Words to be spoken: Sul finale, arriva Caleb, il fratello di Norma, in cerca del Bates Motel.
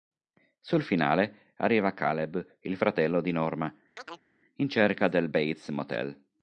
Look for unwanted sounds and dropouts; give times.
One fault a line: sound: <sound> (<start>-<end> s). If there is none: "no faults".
sound: chirp (4.0-4.3 s)